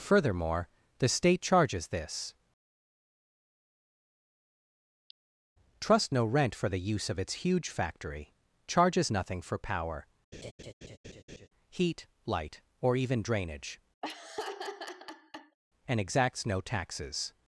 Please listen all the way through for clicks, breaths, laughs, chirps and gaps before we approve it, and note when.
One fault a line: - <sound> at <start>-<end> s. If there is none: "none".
- laugh at 10.3-11.5 s
- laugh at 14.0-15.6 s